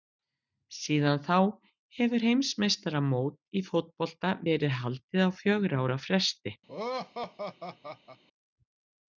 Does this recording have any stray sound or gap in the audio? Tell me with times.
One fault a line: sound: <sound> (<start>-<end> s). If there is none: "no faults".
sound: laugh (6.7-8.2 s)